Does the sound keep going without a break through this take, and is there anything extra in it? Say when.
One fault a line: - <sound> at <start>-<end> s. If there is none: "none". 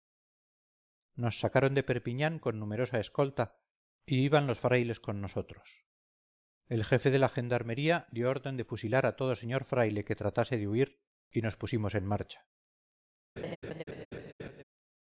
- laugh at 13.4-14.6 s